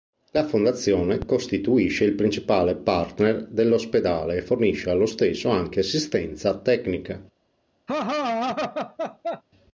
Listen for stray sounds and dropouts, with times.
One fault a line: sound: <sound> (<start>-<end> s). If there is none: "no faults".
sound: laugh (7.9-9.4 s)